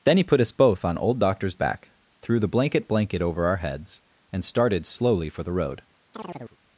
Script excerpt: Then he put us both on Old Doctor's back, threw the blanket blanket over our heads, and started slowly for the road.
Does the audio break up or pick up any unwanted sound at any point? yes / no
yes